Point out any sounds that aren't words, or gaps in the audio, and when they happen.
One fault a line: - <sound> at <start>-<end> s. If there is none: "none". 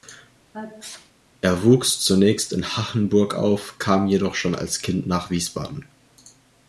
- sneeze at 0.5-1.1 s